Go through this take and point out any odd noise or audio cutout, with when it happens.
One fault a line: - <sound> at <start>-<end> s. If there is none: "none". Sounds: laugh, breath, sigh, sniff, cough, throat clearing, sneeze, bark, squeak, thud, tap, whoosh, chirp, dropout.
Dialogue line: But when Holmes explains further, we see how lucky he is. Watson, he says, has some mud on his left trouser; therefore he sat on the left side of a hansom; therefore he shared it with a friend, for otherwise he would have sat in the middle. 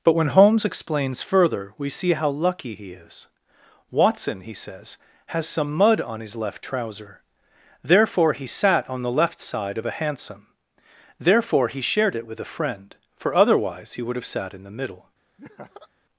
- laugh at 15.4-15.9 s